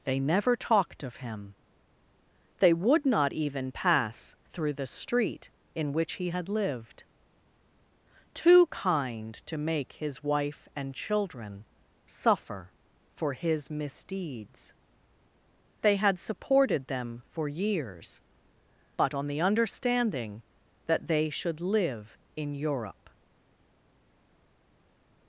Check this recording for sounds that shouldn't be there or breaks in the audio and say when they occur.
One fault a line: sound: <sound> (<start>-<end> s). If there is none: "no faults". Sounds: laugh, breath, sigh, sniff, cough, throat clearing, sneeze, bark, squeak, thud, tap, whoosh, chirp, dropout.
no faults